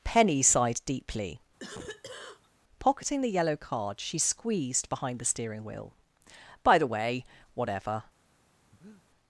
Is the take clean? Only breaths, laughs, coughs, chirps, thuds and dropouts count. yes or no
no